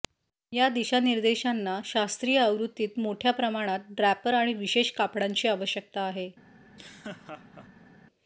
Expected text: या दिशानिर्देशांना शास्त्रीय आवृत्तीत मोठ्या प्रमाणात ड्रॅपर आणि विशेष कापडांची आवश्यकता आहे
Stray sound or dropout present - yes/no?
yes